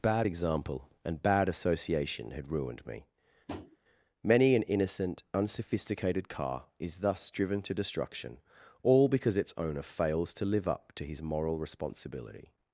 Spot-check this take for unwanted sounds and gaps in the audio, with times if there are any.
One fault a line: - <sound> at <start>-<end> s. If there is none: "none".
- tap at 3.5-3.8 s